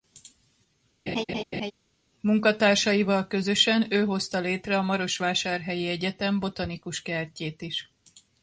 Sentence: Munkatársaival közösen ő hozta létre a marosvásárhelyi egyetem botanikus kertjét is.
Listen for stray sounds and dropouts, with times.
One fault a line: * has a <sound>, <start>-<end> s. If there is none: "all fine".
* has a laugh, 1.1-1.7 s